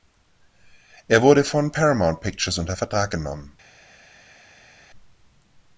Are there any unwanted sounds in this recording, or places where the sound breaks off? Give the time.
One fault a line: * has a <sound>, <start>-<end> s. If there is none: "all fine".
all fine